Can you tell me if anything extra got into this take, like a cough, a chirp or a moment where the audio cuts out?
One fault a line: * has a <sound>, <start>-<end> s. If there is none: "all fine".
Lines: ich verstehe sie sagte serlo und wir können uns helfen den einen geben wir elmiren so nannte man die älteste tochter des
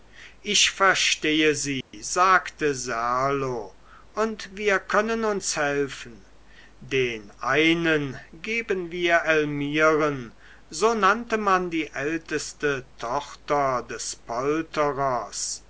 * has a dropout, 1.8-1.9 s